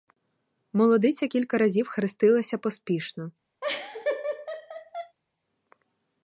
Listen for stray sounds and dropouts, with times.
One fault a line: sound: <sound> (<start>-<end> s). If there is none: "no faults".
sound: laugh (3.6-5.2 s)